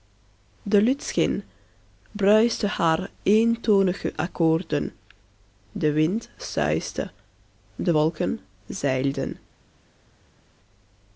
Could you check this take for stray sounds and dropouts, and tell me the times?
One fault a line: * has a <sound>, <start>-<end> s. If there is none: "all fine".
all fine